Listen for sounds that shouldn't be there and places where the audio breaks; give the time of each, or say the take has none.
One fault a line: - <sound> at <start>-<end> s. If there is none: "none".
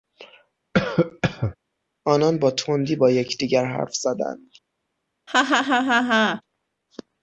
- cough at 0.7-1.6 s
- laugh at 5.3-6.4 s